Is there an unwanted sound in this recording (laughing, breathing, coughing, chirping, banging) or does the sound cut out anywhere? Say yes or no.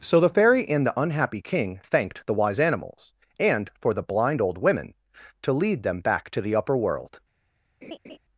yes